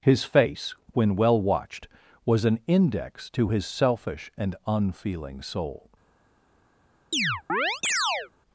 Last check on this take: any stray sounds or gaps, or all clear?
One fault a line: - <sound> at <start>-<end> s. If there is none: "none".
- chirp at 7.1-8.3 s